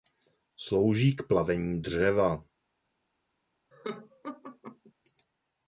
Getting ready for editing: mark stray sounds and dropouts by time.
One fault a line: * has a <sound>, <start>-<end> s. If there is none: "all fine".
* has a laugh, 3.7-4.9 s